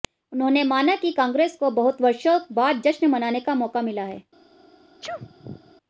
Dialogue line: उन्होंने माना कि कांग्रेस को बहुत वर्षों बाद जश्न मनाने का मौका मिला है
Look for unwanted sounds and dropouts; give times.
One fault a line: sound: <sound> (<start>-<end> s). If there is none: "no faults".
sound: sneeze (5.0-5.8 s)